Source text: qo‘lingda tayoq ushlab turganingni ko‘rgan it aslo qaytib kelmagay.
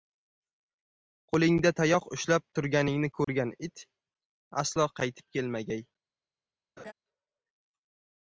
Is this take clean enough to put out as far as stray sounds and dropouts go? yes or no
no